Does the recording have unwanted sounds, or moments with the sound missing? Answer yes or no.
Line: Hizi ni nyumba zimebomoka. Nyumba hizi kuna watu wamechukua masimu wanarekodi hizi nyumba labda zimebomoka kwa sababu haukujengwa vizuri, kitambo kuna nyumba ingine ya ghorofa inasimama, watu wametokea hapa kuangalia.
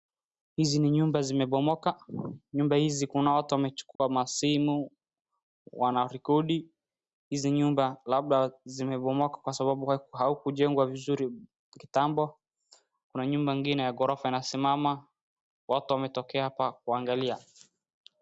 yes